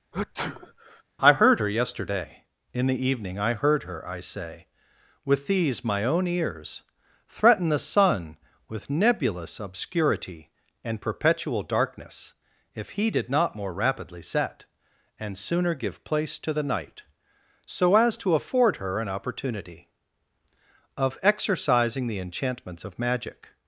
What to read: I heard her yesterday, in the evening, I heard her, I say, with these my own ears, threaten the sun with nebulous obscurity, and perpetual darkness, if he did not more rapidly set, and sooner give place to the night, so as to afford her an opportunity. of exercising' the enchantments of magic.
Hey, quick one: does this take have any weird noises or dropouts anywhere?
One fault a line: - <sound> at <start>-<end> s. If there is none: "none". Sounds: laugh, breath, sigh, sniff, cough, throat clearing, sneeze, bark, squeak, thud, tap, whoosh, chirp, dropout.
- sneeze at 0.1-1.0 s